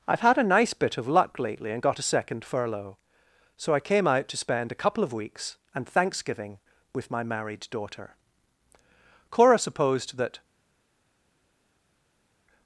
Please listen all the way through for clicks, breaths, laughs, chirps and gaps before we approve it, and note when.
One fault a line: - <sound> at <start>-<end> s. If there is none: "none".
none